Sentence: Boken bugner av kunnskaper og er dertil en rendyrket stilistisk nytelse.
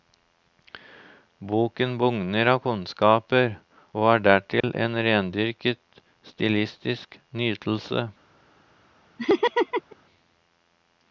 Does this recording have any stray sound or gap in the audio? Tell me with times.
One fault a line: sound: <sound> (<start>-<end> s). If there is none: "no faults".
sound: dropout (4.6-4.6 s)
sound: laugh (9.2-10.0 s)